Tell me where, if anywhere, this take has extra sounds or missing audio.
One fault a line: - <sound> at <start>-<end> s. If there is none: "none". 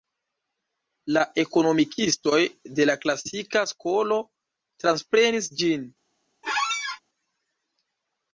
- squeak at 6.4-7.0 s